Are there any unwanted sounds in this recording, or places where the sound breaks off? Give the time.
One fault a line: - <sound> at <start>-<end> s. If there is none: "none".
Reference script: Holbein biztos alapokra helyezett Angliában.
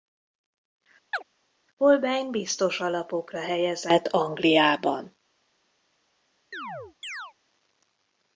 - chirp at 1.1-1.2 s
- chirp at 6.5-7.3 s